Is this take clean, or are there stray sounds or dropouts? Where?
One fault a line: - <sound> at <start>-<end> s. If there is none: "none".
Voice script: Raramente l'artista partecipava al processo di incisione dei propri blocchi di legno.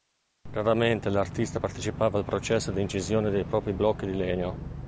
none